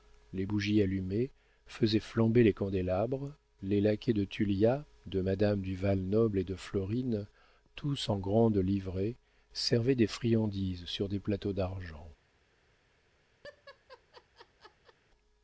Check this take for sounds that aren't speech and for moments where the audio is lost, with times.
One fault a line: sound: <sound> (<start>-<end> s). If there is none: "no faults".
sound: laugh (13.4-15.0 s)